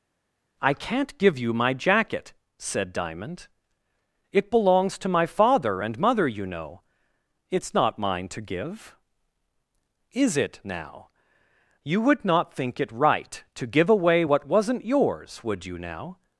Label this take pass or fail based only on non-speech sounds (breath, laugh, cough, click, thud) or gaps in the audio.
pass